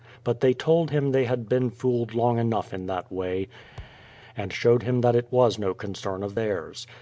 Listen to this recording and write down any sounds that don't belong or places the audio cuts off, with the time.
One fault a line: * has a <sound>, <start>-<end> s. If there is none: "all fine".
* has a thud, 3.8-4.1 s